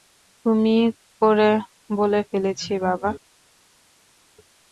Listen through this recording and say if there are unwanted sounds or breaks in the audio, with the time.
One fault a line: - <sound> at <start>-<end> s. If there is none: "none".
none